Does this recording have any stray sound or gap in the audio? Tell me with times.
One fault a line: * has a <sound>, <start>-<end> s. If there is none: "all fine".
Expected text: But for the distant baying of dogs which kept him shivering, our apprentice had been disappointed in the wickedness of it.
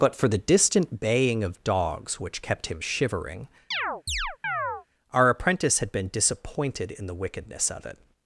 * has a chirp, 3.7-4.9 s